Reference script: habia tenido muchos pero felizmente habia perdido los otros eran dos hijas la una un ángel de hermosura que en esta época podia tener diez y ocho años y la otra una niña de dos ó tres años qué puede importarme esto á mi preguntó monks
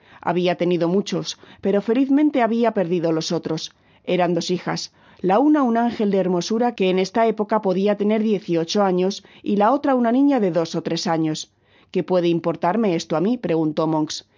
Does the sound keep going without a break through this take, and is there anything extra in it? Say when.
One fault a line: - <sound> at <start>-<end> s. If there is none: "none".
none